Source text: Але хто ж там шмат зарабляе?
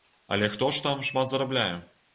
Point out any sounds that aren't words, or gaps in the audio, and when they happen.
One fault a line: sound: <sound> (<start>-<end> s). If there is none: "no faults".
no faults